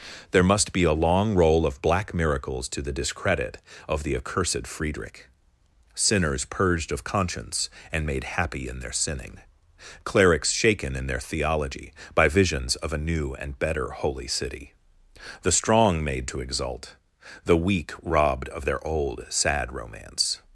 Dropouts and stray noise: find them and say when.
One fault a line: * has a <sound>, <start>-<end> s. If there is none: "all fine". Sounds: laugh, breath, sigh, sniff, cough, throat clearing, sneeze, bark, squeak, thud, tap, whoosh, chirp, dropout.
all fine